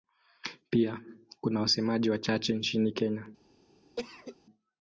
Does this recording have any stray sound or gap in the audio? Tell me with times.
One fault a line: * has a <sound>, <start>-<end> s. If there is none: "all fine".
* has a cough, 4.0-4.4 s